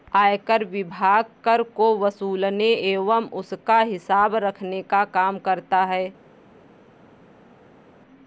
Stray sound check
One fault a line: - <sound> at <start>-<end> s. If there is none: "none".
none